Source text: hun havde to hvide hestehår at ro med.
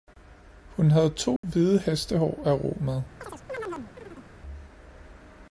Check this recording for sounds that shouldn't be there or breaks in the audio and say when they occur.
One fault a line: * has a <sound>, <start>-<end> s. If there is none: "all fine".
* has a dropout, 1.4-1.4 s
* has a chirp, 3.2-4.3 s